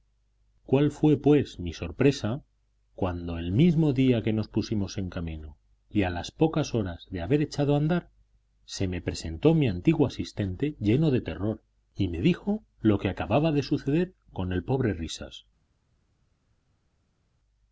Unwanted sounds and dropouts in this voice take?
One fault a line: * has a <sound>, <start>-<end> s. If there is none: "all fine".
all fine